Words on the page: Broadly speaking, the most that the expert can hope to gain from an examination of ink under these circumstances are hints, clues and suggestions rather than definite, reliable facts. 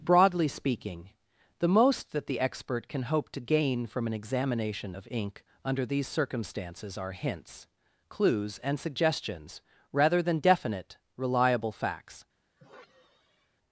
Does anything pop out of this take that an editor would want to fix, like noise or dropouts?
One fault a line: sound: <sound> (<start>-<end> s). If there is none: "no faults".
sound: sigh (12.6-13.6 s)